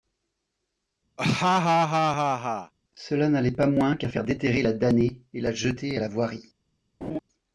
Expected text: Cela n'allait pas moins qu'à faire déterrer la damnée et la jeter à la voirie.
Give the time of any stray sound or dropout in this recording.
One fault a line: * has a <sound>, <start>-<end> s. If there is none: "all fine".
* has a laugh, 1.2-2.7 s
* has a laugh, 7.0-7.2 s